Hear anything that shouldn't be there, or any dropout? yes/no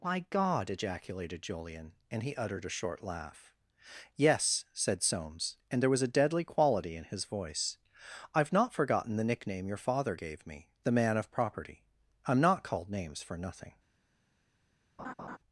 yes